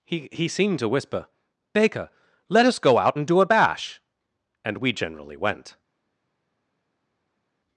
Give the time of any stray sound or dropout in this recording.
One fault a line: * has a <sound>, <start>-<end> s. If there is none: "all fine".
all fine